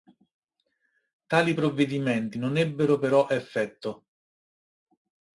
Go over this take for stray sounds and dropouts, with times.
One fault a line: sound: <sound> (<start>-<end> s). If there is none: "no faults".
no faults